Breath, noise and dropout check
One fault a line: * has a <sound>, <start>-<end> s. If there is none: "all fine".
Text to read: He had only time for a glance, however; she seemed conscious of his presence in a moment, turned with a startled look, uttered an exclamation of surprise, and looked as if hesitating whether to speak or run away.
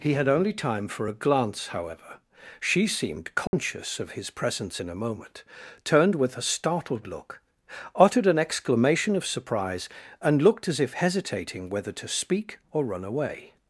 * has a dropout, 3.5-3.5 s